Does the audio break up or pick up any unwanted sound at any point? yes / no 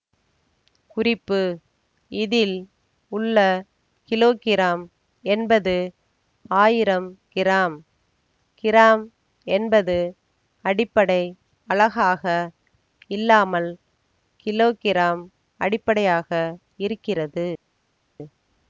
no